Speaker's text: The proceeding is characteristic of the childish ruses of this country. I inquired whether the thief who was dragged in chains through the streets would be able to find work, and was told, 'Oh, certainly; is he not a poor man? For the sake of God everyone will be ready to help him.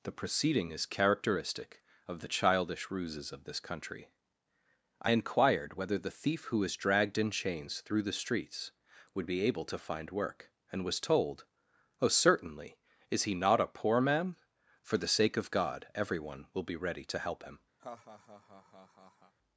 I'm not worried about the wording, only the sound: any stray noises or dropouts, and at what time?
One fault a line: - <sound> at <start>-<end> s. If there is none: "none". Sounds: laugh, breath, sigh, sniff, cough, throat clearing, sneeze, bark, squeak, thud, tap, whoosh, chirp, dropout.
- laugh at 17.8-19.3 s